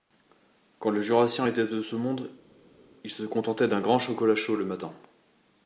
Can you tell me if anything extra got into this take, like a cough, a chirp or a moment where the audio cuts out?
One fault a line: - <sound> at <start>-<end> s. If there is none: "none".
none